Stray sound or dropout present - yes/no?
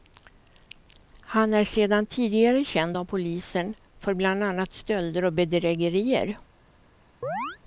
yes